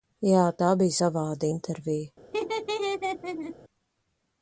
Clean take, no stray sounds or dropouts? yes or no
no